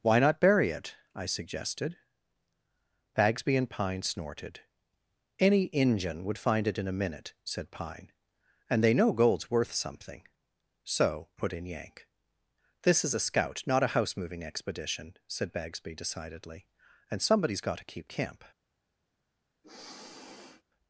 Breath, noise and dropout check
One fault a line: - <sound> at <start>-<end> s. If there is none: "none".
- sniff at 19.6-20.6 s